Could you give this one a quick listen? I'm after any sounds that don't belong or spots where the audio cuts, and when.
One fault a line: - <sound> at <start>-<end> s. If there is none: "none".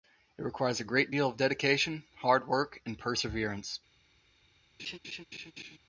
- laugh at 4.8-5.8 s